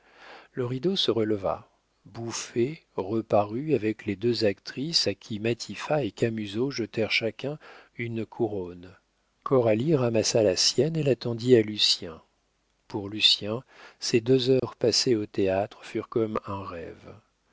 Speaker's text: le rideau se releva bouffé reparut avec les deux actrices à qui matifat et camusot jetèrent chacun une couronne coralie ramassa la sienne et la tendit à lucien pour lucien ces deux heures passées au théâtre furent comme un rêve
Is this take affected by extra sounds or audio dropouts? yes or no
yes